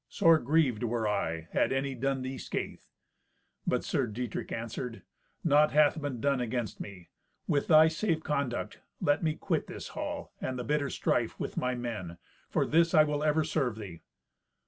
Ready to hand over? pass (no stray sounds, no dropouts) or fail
pass